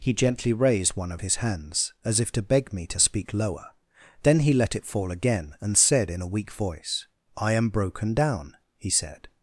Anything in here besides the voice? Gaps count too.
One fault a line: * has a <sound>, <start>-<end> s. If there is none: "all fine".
all fine